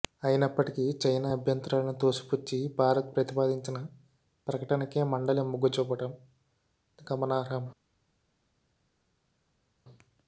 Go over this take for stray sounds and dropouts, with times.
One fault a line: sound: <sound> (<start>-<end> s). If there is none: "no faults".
no faults